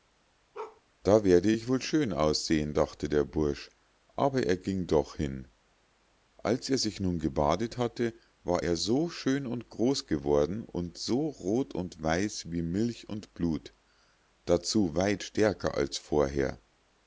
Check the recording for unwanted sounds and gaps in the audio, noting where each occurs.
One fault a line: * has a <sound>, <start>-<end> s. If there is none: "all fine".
* has a bark, 0.5-0.8 s